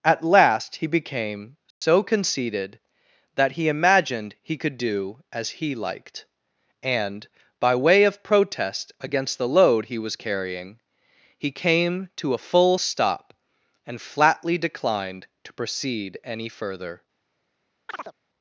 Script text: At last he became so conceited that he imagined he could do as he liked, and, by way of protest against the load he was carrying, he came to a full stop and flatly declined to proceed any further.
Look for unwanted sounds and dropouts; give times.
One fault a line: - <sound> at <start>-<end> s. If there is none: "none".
- dropout at 1.7-1.8 s
- chirp at 17.9-18.1 s